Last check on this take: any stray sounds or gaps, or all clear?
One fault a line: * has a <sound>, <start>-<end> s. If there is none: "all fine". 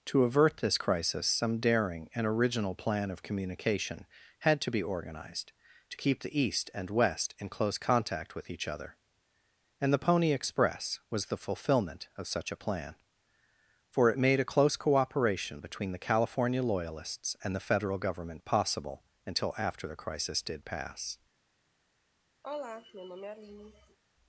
* has a sigh, 22.4-24.0 s